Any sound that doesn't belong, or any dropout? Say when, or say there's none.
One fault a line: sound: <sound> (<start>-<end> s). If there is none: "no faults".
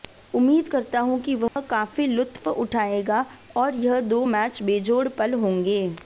sound: dropout (1.5-1.6 s)